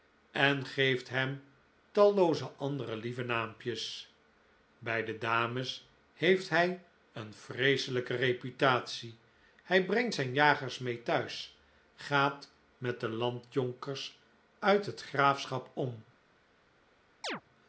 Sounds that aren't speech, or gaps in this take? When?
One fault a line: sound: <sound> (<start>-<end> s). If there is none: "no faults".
sound: chirp (17.2-17.4 s)